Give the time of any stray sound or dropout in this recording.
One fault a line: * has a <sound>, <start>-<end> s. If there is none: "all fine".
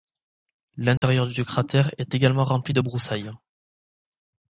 * has a dropout, 1.0-1.0 s